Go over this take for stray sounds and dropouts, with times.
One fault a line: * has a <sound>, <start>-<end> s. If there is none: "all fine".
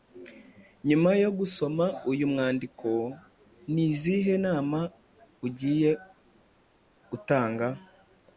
all fine